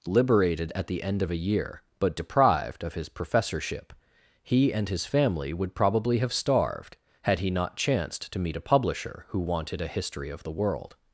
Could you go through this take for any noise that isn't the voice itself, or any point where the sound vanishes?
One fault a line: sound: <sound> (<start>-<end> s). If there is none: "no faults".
no faults